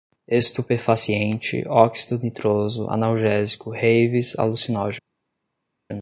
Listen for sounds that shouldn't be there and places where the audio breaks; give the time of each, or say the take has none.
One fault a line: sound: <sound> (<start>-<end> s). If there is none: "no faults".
no faults